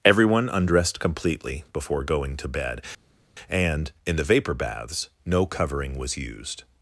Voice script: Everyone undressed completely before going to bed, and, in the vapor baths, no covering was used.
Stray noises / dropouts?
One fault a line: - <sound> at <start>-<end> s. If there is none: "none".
none